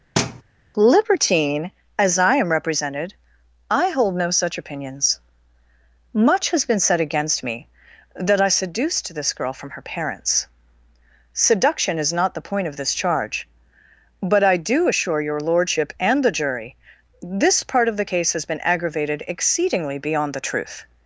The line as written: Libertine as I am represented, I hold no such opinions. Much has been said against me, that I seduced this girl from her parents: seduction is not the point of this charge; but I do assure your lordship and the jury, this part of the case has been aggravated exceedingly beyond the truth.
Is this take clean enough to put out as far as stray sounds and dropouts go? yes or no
no